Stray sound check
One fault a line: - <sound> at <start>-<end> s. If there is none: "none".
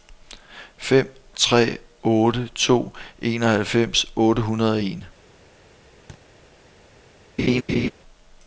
- thud at 6.1-6.2 s
- laugh at 7.4-7.9 s